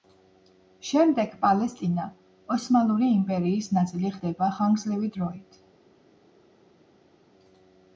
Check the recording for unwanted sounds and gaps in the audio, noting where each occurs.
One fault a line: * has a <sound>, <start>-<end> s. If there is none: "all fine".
all fine